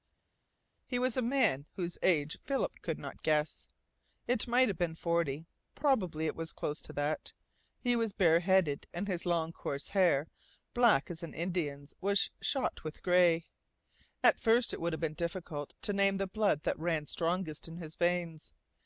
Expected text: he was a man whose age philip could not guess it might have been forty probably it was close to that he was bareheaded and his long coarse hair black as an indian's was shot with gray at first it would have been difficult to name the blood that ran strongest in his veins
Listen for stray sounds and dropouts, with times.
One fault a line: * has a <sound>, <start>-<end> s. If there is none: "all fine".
all fine